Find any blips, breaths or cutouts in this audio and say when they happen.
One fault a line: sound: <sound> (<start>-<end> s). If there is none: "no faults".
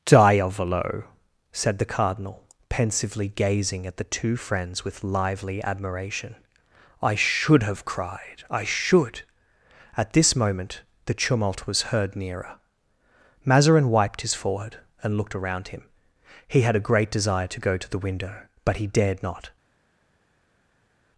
no faults